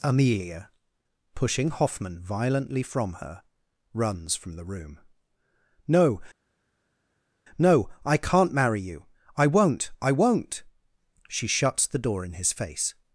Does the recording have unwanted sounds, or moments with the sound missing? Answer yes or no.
no